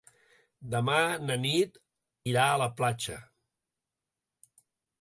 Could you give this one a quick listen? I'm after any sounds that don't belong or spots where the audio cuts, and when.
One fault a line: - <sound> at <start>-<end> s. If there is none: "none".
none